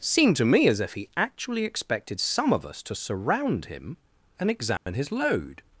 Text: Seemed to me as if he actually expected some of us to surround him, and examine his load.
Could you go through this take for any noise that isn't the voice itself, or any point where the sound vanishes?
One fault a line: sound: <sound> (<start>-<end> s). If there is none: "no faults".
sound: dropout (4.8-4.9 s)